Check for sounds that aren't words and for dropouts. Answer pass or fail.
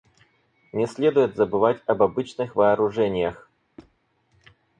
fail